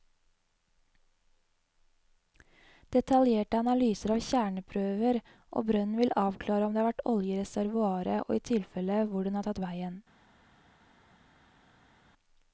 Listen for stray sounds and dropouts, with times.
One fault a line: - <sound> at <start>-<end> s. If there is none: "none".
none